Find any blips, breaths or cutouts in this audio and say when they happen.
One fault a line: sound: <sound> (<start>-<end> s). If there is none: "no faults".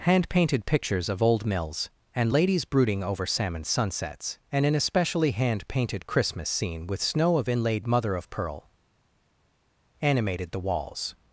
no faults